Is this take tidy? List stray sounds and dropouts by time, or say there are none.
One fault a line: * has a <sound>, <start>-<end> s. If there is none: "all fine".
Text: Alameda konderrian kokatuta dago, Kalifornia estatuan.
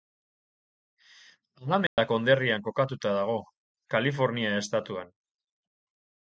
* has a dropout, 1.9-2.0 s